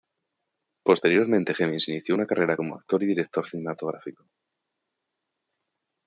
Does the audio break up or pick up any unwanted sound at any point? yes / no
no